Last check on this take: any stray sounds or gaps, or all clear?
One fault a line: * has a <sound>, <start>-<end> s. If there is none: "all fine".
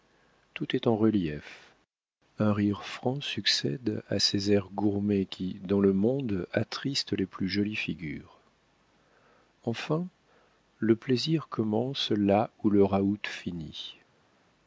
all fine